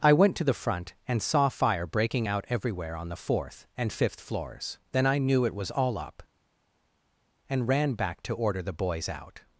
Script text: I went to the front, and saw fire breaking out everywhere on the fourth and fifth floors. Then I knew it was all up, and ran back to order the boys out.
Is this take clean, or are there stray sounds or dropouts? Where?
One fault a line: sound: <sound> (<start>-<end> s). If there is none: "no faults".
no faults